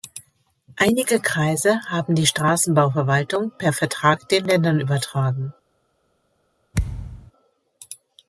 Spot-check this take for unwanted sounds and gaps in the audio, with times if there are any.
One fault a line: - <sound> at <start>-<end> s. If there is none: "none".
- thud at 6.7-7.3 s